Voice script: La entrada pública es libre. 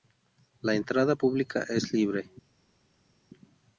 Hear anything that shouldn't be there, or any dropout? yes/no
no